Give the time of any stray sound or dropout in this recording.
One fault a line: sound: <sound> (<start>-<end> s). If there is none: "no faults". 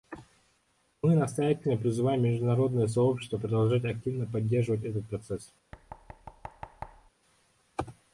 sound: thud (5.7-7.1 s)